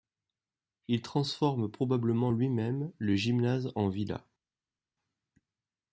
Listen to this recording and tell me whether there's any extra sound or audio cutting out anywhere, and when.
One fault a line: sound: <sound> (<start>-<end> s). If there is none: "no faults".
no faults